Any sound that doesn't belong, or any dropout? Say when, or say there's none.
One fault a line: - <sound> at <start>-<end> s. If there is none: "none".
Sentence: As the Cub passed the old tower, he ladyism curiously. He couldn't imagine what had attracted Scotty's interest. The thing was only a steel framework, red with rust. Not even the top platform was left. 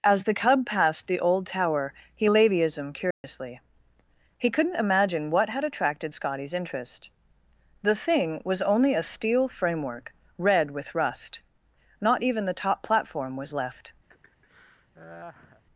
- dropout at 3.1-3.2 s
- laugh at 14.1-15.6 s